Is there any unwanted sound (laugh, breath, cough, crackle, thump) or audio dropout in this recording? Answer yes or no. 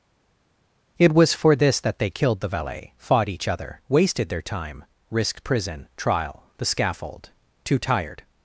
no